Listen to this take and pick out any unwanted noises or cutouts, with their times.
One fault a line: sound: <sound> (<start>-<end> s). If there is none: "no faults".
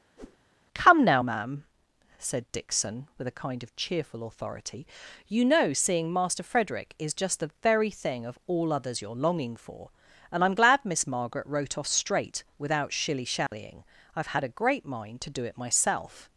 sound: whoosh (0.2-0.4 s)
sound: dropout (13.5-13.5 s)